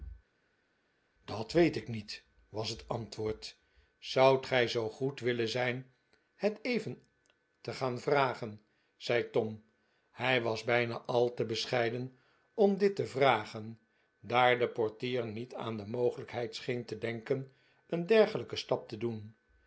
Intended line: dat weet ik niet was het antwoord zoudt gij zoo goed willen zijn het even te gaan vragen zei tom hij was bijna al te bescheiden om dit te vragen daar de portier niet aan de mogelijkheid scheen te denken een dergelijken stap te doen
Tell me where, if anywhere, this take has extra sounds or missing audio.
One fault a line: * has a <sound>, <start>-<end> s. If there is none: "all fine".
all fine